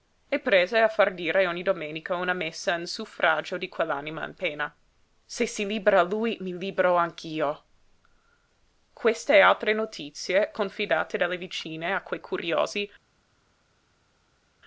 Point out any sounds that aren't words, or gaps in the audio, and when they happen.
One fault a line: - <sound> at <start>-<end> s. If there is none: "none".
none